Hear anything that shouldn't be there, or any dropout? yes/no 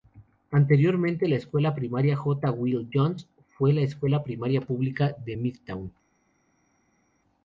no